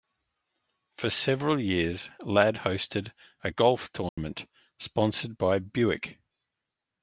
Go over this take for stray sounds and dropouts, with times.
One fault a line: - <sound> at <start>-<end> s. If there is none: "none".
- dropout at 4.1-4.2 s